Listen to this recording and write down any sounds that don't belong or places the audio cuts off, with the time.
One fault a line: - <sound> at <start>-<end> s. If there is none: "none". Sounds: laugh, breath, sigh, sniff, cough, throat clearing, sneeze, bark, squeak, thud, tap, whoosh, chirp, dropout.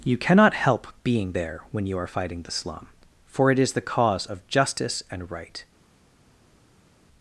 none